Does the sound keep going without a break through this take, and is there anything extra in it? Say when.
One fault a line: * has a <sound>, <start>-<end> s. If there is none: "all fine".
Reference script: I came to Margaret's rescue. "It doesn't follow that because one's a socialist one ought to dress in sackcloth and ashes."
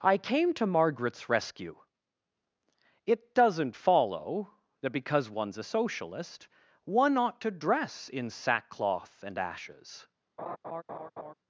* has a laugh, 10.4-11.3 s